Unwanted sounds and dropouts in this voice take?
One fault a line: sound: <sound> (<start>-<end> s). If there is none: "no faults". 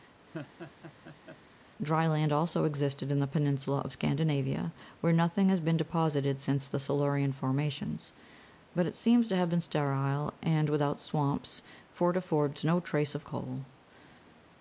sound: laugh (0.3-1.4 s)